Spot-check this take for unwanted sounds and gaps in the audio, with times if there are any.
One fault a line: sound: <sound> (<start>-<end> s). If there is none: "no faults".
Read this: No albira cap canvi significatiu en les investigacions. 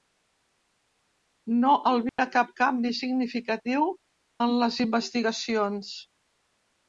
sound: dropout (2.1-2.2 s)